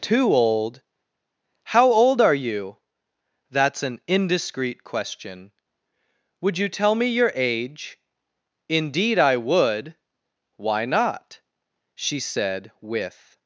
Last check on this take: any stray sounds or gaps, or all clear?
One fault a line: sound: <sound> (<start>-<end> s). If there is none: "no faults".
no faults